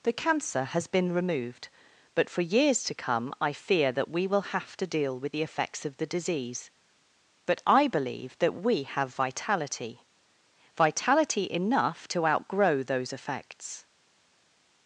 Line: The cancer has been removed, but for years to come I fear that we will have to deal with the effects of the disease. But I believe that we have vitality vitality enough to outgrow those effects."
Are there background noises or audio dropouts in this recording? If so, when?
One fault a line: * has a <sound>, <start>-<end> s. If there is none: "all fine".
all fine